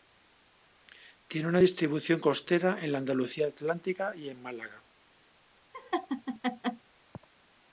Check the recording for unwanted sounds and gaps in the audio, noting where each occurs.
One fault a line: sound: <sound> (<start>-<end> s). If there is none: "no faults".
sound: laugh (5.7-6.9 s)